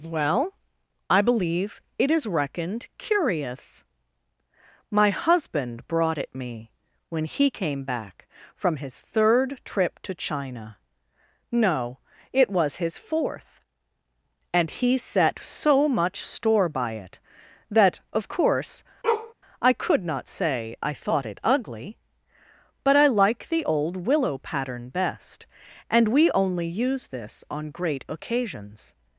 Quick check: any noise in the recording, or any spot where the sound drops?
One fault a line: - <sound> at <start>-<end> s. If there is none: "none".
- bark at 19.0-19.3 s